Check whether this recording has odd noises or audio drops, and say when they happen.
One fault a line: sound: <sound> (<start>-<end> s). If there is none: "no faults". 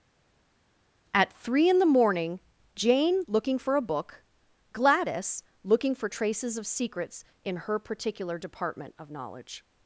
no faults